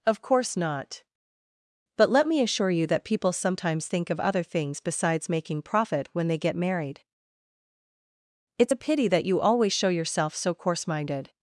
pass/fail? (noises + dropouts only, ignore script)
pass